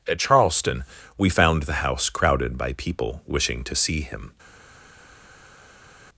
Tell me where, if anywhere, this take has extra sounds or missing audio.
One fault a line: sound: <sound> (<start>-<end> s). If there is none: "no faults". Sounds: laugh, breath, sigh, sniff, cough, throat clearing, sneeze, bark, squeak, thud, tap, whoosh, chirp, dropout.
no faults